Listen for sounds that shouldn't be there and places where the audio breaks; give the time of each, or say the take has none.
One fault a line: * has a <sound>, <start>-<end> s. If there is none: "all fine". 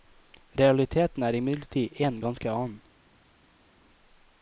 all fine